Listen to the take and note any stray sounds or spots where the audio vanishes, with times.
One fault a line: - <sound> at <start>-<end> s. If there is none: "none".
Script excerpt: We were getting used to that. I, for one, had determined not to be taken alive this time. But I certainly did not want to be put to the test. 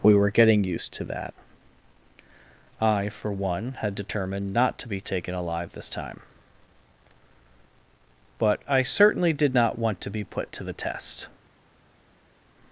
none